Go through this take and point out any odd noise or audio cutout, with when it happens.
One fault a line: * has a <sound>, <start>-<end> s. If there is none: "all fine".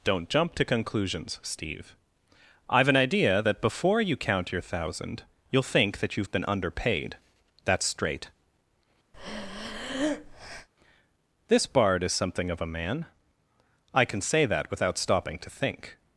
* has a breath, 9.1-10.7 s